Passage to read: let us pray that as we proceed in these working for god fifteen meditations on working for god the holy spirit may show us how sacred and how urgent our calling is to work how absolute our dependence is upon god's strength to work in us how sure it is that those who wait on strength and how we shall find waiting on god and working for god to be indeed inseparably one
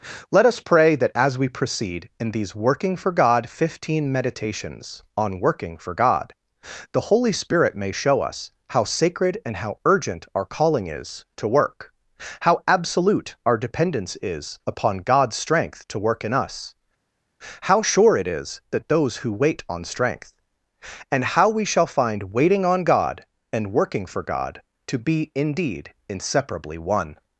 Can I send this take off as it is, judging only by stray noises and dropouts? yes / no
yes